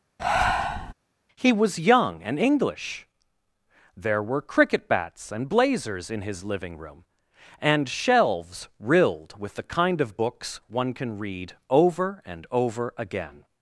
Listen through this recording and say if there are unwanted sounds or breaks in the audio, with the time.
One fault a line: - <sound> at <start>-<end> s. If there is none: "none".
- breath at 0.2-0.9 s